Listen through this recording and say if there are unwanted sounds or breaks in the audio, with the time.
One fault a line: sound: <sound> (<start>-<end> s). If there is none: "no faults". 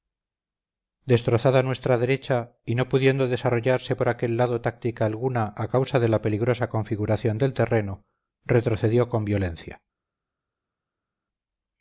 no faults